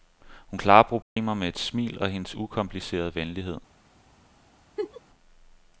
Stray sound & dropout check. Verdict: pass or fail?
fail